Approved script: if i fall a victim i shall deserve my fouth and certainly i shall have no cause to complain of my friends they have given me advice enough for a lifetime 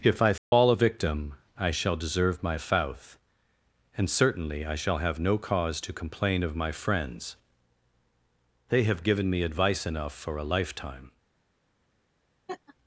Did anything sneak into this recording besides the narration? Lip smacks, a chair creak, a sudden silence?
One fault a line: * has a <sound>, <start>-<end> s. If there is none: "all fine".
* has a dropout, 0.4-0.5 s
* has a laugh, 12.5-12.8 s